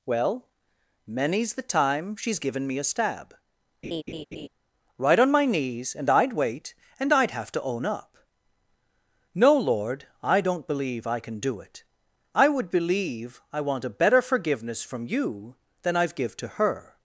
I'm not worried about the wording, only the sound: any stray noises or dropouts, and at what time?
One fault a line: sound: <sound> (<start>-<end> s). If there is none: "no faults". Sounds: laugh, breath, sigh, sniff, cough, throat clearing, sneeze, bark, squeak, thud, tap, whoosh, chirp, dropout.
sound: laugh (3.8-4.5 s)